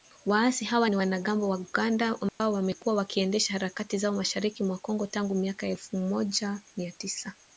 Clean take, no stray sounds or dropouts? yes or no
no